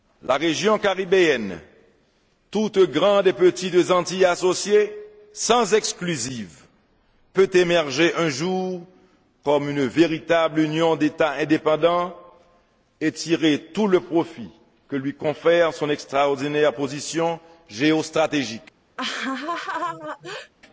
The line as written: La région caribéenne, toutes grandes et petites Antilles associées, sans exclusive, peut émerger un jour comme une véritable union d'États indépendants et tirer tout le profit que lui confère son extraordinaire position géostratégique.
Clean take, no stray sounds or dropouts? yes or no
no